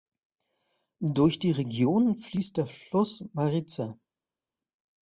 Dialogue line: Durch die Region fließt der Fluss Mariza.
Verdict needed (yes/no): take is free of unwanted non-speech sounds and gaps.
yes